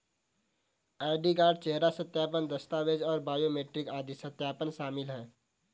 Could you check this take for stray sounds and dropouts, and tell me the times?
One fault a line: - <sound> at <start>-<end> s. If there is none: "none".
none